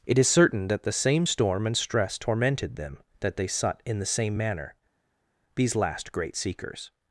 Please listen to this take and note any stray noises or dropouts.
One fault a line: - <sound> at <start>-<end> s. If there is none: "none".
none